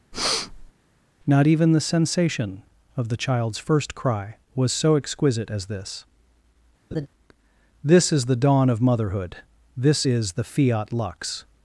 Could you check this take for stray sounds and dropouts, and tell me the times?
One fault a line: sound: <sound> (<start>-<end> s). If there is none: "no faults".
sound: breath (0.1-0.7 s)
sound: laugh (6.9-7.1 s)